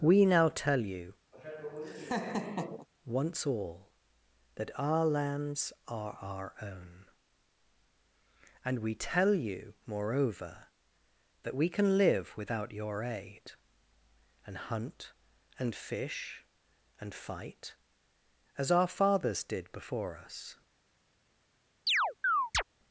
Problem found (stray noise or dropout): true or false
true